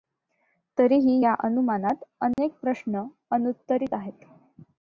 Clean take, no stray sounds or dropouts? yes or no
no